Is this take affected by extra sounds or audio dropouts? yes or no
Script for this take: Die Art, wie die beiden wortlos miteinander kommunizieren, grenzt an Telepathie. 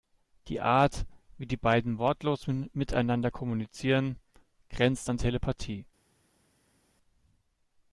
no